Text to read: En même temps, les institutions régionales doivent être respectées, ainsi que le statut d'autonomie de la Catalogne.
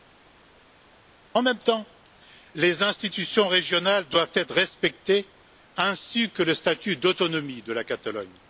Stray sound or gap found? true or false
false